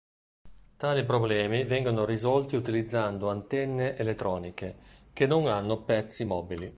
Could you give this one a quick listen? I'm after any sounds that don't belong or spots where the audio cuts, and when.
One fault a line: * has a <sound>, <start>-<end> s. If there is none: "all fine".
all fine